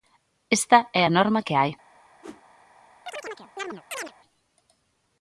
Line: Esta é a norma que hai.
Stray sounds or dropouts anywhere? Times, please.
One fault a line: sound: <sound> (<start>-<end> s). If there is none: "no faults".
sound: whoosh (2.2-2.4 s)
sound: chirp (3.1-4.1 s)